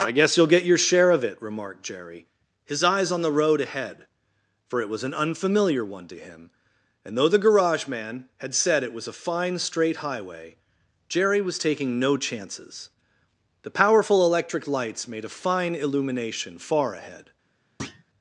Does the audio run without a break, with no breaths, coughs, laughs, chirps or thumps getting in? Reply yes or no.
no